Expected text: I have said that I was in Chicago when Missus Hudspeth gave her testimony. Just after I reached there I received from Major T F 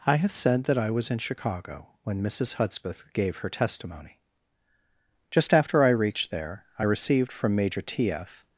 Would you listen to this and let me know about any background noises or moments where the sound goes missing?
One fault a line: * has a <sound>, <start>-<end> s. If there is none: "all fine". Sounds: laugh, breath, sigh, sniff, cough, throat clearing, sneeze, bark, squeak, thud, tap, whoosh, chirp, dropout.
all fine